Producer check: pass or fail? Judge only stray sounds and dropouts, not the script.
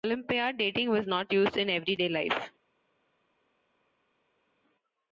pass